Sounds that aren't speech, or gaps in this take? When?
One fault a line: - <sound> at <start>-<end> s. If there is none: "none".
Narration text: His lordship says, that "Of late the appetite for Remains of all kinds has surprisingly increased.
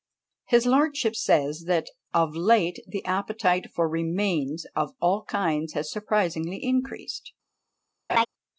- laugh at 8.1-8.3 s